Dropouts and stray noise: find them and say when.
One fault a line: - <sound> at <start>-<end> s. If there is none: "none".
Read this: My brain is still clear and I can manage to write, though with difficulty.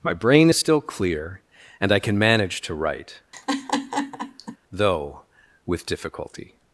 - laugh at 3.3-4.6 s